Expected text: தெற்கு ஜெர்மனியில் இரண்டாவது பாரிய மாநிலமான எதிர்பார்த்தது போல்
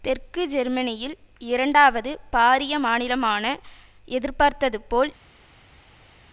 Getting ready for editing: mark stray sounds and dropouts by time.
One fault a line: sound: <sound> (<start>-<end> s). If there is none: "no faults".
no faults